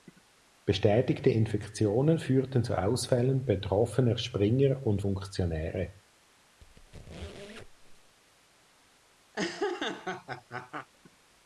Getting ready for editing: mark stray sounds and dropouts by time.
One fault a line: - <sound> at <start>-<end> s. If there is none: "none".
- squeak at 6.6-8.2 s
- laugh at 9.3-10.9 s